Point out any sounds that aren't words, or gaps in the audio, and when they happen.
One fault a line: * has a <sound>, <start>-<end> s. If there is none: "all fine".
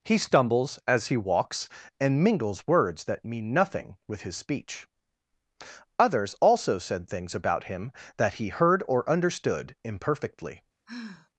* has a sigh, 10.9-11.3 s